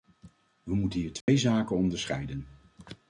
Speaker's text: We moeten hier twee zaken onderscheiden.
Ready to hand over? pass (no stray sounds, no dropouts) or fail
fail